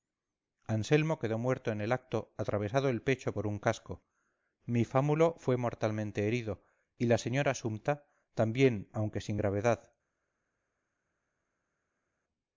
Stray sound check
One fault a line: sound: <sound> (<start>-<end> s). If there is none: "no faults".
no faults